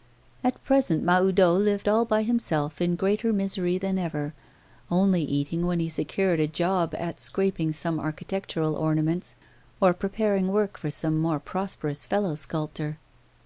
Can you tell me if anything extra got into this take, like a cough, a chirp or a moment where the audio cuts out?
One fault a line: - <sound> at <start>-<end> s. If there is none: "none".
none